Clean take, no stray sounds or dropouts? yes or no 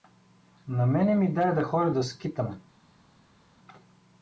yes